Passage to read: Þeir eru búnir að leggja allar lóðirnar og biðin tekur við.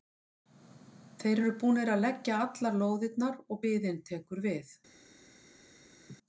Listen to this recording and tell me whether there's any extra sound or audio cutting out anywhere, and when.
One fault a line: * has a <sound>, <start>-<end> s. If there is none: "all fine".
* has a laugh, 6.1-6.2 s